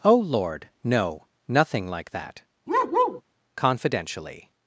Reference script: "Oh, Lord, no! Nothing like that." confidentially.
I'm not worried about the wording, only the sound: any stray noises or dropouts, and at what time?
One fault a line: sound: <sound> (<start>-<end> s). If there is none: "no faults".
sound: bark (2.7-3.2 s)